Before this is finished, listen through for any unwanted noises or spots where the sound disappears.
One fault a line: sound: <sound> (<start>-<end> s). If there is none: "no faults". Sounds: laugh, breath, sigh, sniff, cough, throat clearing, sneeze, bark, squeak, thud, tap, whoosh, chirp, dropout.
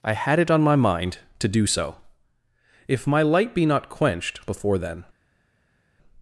no faults